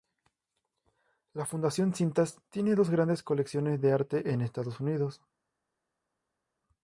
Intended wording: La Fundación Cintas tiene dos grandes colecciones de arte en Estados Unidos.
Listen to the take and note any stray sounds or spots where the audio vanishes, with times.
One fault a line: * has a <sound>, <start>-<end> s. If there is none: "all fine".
all fine